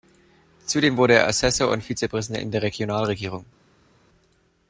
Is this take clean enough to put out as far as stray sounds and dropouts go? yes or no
yes